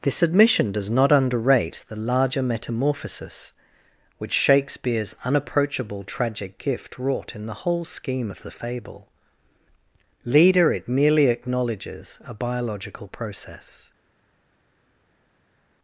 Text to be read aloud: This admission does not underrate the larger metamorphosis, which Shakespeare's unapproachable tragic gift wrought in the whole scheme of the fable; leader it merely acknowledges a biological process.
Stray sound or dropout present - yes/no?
no